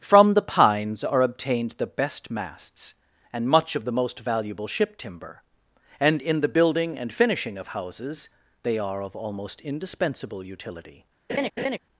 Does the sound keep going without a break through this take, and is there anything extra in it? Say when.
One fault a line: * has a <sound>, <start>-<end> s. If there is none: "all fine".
* has a laugh, 11.3-11.8 s